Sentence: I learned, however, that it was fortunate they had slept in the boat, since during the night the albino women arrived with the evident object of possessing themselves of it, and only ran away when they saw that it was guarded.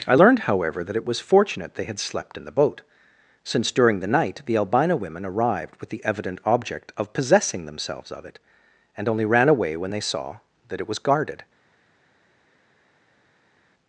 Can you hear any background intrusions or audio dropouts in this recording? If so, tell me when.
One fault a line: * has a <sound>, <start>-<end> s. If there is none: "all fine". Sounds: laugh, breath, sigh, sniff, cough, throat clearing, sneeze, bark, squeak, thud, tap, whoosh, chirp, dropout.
all fine